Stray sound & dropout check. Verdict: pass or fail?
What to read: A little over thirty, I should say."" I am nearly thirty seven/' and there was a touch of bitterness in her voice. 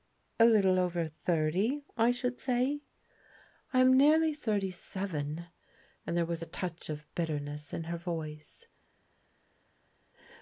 pass